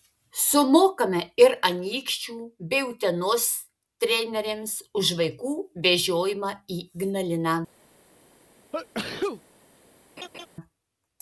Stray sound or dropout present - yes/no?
yes